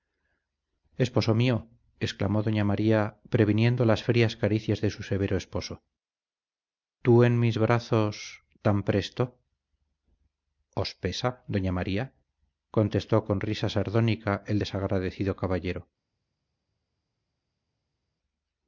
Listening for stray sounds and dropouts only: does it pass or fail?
pass